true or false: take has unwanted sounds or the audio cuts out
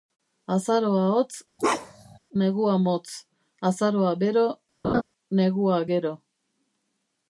true